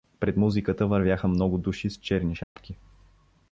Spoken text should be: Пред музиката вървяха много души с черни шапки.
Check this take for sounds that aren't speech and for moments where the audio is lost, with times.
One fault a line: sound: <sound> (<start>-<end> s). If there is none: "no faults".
sound: dropout (2.4-2.6 s)